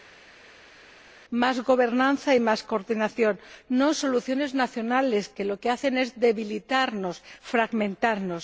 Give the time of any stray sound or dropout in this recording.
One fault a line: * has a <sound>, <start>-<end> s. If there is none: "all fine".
all fine